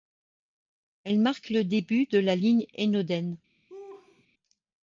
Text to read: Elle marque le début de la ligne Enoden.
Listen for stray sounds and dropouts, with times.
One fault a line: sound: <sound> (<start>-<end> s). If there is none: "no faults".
sound: laugh (3.7-4.3 s)